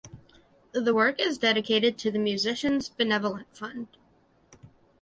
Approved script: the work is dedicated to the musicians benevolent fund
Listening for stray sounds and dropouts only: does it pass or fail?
pass